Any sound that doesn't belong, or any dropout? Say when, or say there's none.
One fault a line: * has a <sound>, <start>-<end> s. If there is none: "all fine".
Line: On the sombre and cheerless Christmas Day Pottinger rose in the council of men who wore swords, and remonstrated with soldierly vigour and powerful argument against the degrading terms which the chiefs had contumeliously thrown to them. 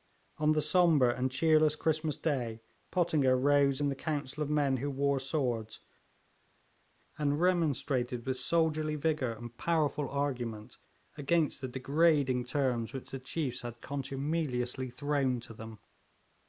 all fine